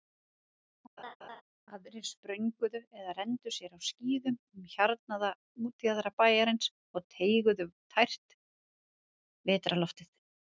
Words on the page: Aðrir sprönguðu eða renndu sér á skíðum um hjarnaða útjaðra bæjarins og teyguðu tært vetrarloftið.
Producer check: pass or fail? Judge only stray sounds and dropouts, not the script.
fail